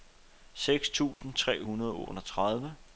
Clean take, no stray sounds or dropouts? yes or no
no